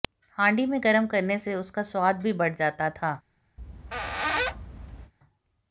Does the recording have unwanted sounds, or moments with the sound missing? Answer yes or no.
yes